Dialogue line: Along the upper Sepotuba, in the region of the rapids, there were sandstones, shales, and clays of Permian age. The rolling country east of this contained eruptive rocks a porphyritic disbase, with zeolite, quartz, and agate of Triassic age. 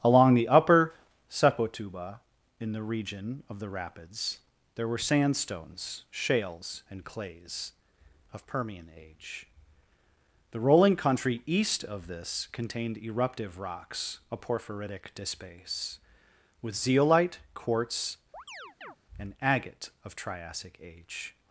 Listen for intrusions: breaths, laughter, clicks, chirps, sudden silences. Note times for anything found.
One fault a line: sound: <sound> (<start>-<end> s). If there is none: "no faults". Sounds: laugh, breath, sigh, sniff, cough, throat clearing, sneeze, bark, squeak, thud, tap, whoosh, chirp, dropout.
sound: chirp (18.3-19.0 s)